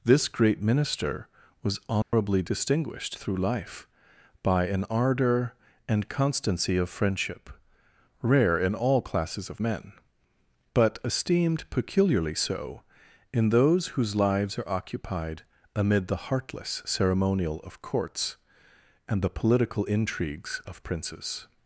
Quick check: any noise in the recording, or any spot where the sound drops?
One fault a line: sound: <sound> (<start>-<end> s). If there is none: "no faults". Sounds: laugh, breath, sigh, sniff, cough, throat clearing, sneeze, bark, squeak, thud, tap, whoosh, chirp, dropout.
sound: dropout (2.0-2.1 s)